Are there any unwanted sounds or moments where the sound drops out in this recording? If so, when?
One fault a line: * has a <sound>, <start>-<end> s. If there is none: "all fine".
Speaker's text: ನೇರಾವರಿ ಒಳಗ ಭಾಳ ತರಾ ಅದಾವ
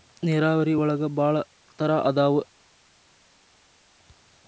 all fine